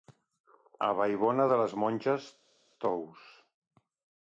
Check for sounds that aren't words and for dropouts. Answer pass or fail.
pass